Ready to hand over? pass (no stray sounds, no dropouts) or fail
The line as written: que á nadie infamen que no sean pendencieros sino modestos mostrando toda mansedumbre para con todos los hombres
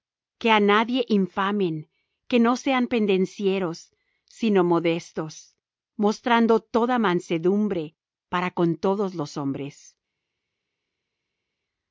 pass